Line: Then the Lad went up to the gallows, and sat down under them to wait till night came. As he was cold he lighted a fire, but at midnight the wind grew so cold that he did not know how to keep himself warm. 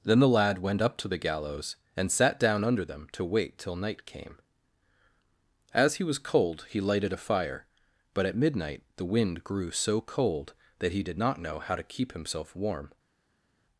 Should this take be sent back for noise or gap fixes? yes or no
no